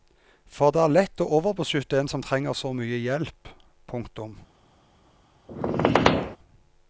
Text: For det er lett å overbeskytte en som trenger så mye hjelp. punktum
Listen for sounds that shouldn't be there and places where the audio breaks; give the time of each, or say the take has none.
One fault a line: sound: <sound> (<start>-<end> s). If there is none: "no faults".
sound: squeak (5.5-6.4 s)